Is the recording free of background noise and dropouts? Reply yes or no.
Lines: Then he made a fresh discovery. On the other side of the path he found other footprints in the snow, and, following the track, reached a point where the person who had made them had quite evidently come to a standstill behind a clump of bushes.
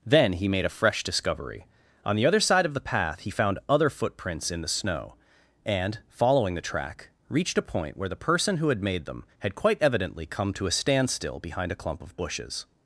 yes